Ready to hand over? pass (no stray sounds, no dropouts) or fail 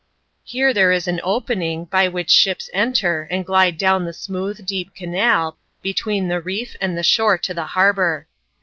pass